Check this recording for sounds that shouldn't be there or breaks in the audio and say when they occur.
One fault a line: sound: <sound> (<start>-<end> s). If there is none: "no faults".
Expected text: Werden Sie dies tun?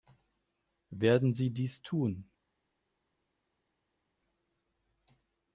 no faults